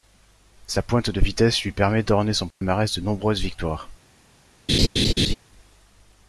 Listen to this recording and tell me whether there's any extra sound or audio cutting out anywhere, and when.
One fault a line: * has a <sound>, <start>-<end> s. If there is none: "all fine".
* has a dropout, 2.5-2.6 s
* has a laugh, 4.7-5.3 s